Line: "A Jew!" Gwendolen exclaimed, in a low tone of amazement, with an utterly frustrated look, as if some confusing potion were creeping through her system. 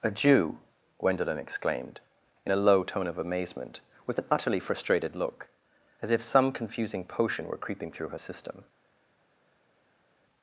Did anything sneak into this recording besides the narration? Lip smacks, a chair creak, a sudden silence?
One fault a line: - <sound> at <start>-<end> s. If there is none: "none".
none